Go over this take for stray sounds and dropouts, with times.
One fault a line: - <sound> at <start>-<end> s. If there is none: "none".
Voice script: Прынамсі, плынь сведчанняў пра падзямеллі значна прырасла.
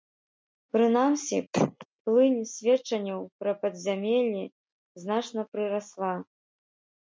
- throat clearing at 1.5-1.9 s